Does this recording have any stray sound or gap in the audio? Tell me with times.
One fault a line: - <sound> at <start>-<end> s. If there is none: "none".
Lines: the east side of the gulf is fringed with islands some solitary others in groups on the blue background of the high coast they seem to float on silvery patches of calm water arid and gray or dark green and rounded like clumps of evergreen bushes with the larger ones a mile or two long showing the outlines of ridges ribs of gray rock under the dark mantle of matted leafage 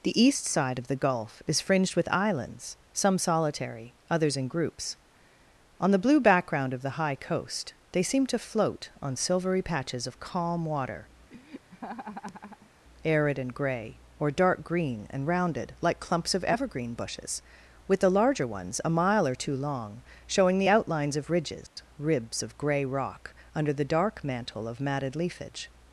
- laugh at 11.3-12.7 s
- dropout at 21.7-21.8 s